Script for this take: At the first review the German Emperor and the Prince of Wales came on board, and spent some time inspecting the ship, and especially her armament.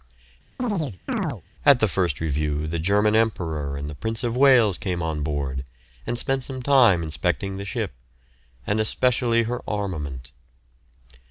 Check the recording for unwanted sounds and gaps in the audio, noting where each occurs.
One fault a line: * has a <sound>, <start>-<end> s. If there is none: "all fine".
* has a chirp, 0.6-1.4 s